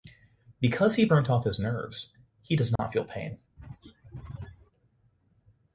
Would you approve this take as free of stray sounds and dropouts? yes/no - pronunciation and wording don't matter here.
no